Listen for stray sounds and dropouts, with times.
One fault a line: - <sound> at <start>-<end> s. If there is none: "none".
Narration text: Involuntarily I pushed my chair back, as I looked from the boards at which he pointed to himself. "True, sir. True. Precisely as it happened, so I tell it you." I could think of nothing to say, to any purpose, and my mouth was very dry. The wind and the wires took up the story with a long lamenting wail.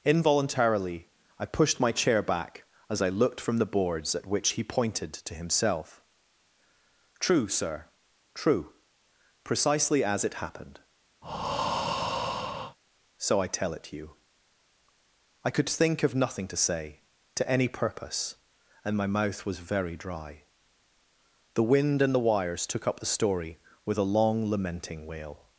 - breath at 11.2-12.8 s